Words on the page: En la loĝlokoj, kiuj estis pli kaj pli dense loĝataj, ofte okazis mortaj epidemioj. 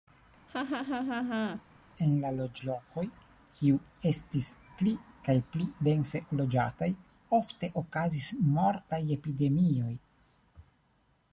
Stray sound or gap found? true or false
true